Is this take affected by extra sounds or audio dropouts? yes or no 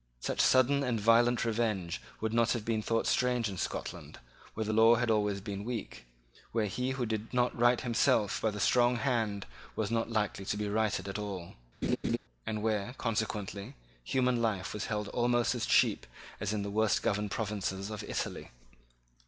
yes